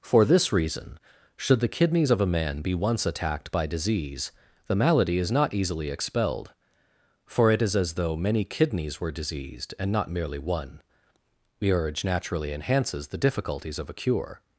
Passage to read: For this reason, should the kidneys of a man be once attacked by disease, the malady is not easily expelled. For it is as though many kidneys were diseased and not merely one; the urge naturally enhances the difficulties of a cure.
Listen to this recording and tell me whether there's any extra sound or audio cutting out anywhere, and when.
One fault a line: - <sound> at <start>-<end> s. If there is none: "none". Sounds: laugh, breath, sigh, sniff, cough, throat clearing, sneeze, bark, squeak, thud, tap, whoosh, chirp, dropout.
none